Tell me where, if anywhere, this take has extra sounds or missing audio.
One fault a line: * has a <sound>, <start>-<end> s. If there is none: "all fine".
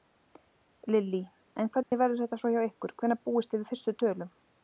* has a dropout, 1.8-1.9 s